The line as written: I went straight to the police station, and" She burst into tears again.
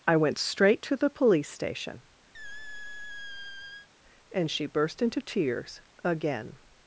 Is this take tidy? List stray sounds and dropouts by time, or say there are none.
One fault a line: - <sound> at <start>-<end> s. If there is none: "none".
- squeak at 2.3-3.9 s